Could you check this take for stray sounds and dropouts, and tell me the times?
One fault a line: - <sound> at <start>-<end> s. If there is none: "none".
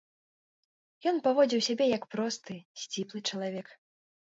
none